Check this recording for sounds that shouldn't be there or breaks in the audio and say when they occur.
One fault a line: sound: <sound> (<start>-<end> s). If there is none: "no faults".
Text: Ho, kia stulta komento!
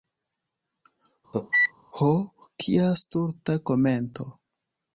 sound: cough (1.3-1.7 s)